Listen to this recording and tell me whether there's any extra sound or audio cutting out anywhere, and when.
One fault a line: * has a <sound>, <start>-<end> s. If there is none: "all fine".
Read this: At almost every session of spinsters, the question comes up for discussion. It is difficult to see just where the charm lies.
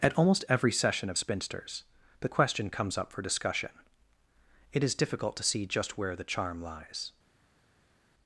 all fine